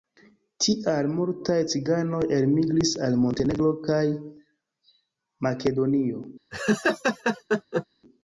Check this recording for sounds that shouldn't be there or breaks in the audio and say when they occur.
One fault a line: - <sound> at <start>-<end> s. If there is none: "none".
- laugh at 6.5-7.9 s